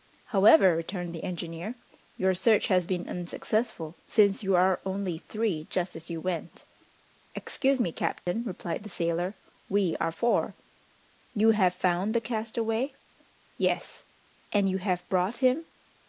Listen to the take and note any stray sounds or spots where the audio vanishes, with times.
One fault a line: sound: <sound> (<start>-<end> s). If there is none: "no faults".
sound: dropout (8.2-8.3 s)